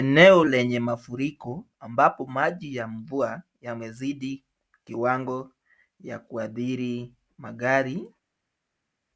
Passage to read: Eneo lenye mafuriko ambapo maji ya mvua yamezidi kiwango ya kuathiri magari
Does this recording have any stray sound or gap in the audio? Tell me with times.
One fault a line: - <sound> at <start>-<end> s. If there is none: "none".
none